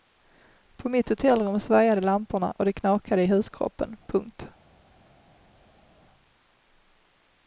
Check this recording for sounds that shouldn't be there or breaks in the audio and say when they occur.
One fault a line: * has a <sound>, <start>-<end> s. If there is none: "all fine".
all fine